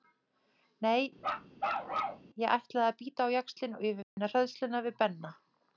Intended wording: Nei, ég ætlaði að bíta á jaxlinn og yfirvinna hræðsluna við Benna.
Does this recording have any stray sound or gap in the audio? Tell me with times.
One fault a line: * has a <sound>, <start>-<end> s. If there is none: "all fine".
* has a bark, 1.2-2.3 s
* has a dropout, 4.0-4.2 s